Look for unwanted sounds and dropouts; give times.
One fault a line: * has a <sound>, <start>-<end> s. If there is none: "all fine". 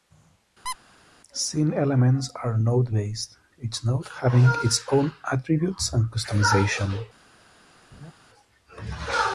* has a squeak, 0.7-0.8 s
* has a laugh, 7.9-8.1 s